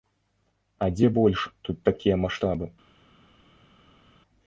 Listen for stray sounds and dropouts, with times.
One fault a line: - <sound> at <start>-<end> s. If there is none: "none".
none